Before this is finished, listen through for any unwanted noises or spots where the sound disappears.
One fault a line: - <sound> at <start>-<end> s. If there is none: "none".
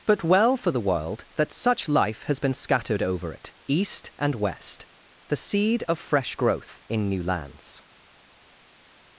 none